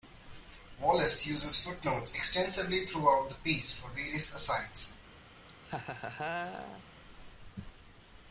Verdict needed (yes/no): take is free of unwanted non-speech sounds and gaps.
no